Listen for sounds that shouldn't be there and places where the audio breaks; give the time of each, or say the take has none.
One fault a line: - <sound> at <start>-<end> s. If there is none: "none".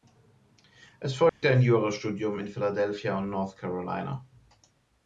- dropout at 1.3-1.4 s